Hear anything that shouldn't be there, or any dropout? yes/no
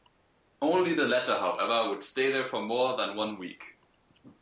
no